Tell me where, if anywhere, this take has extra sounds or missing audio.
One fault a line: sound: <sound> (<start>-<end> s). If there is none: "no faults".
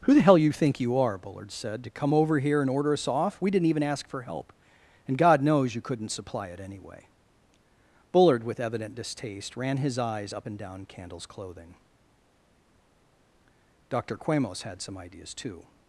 no faults